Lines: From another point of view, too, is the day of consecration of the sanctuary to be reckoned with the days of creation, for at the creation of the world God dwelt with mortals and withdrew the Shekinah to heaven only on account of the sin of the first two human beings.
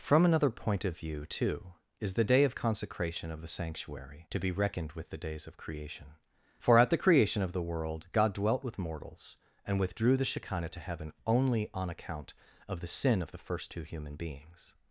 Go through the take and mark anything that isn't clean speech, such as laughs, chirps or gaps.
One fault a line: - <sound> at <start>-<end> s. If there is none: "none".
none